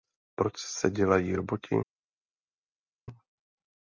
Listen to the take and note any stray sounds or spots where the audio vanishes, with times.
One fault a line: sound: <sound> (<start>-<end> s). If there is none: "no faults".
no faults